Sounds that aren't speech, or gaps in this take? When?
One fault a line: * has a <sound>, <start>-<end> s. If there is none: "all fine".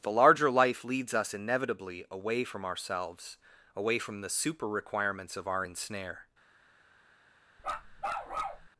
* has a bark, 7.6-8.7 s